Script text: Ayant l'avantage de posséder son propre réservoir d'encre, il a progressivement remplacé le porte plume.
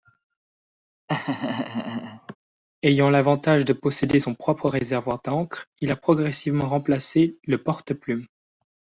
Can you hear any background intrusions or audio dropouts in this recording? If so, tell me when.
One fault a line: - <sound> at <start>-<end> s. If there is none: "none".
- laugh at 1.1-2.4 s